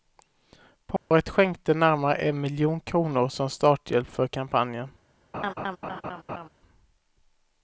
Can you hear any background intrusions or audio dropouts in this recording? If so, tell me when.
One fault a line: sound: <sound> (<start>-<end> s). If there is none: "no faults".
sound: dropout (1.0-1.1 s)
sound: laugh (5.3-6.5 s)